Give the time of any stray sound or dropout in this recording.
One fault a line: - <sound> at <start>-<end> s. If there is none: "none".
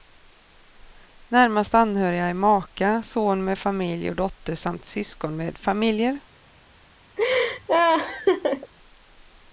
- laugh at 7.2-8.7 s